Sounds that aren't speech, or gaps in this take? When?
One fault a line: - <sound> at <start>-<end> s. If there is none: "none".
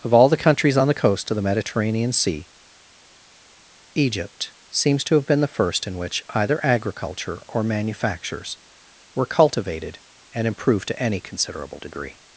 none